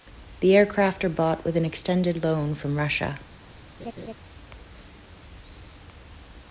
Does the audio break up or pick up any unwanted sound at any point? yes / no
yes